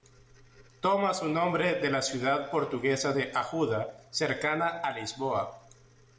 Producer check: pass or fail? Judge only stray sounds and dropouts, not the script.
pass